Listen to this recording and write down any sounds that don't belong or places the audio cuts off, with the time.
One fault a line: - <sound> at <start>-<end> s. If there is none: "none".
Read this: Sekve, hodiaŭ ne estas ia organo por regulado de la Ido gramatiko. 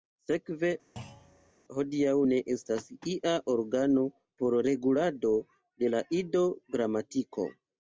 - thud at 1.0-1.5 s